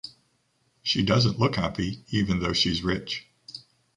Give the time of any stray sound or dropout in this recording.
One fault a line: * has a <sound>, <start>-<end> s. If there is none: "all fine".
all fine